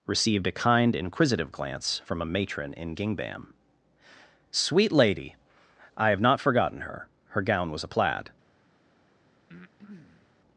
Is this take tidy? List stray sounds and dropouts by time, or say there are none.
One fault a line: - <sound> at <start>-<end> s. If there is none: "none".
- breath at 9.5-10.3 s